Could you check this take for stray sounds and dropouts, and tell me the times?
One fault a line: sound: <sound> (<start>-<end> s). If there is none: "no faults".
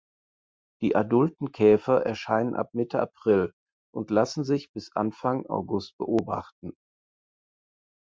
no faults